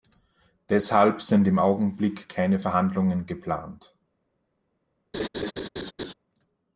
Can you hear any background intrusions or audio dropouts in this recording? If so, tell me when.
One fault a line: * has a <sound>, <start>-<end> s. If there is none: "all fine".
* has a laugh, 5.1-6.1 s